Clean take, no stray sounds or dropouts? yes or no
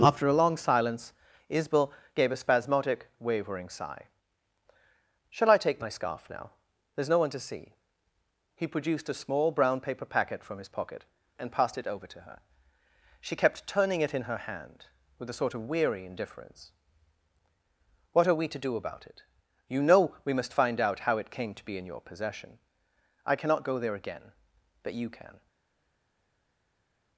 yes